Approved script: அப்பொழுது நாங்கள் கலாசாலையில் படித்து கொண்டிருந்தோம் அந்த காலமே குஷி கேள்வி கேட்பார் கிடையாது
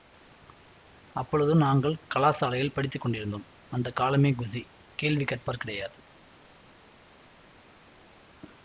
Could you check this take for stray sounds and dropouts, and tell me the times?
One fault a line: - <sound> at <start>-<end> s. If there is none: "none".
none